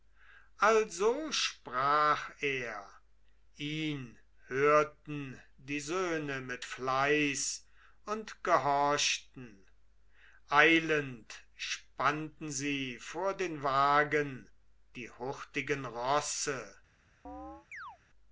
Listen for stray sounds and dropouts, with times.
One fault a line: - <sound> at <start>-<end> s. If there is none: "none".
- chirp at 17.2-18.0 s